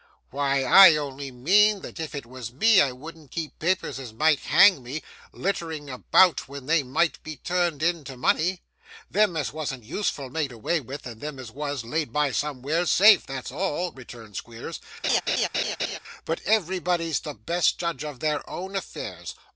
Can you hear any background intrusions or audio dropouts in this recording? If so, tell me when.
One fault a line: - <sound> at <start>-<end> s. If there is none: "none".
- laugh at 15.0-16.0 s